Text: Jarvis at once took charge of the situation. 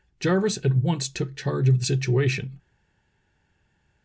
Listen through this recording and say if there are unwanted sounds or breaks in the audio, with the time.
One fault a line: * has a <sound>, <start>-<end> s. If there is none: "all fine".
all fine